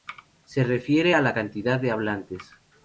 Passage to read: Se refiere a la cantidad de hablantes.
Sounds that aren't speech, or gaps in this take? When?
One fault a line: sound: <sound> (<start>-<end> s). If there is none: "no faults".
no faults